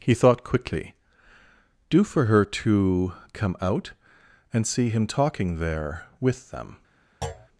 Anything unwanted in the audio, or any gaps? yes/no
yes